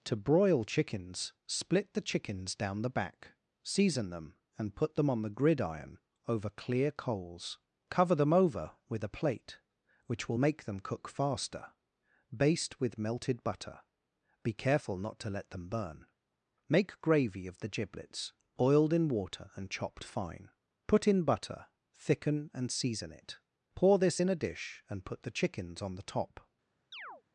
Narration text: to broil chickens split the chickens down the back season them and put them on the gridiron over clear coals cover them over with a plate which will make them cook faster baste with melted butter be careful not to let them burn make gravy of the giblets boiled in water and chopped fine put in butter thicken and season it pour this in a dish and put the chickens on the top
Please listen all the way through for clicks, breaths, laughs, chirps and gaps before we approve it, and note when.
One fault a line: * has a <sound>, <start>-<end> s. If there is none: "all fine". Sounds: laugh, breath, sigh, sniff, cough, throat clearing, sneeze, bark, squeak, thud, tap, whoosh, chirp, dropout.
* has a chirp, 26.9-27.2 s